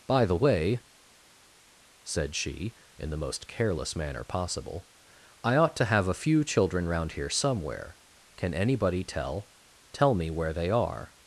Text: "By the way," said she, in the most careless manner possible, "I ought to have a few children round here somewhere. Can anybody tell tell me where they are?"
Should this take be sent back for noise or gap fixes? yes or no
no